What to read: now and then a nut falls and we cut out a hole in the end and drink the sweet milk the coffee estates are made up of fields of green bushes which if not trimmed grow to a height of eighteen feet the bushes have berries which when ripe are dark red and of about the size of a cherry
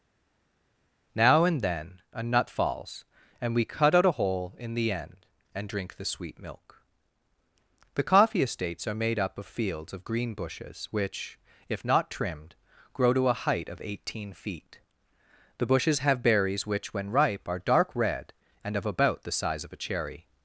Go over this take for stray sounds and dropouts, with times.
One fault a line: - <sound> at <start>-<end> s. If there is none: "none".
none